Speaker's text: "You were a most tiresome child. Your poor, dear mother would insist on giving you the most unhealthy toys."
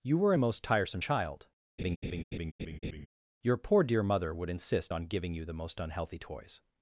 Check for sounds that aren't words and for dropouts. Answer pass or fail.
fail